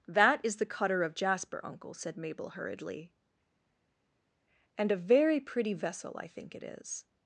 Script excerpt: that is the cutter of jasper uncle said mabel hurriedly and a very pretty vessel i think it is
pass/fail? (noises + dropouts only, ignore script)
pass